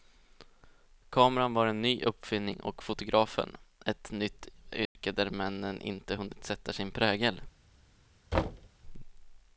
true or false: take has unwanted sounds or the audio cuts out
true